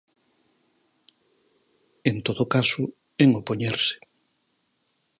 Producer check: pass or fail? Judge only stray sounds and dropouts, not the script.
pass